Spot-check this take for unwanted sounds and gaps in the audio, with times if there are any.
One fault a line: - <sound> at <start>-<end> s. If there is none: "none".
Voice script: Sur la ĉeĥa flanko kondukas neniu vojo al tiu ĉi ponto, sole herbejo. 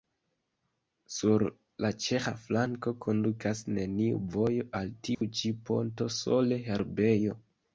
- dropout at 5.1-5.2 s